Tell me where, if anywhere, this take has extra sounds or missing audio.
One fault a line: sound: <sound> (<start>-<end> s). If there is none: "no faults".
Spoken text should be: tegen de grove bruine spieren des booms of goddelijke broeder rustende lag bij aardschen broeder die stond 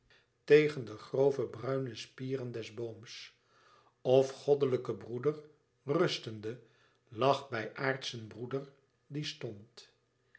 no faults